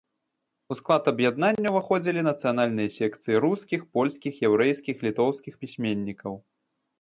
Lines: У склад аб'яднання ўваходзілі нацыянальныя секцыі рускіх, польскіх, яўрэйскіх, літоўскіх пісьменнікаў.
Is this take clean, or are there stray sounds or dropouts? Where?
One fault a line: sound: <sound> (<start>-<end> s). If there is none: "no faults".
no faults